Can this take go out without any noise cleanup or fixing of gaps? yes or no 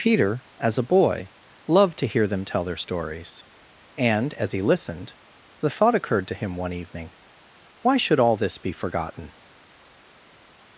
yes